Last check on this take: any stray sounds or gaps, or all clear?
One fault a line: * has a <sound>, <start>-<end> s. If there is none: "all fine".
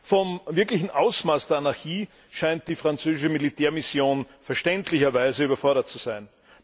all fine